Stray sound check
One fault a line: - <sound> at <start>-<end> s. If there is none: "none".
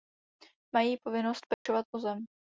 - dropout at 1.5-1.7 s